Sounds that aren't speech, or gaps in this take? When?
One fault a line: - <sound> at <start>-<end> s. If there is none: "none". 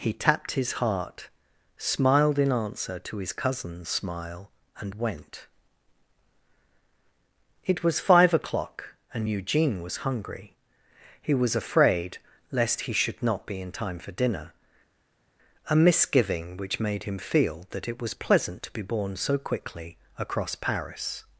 none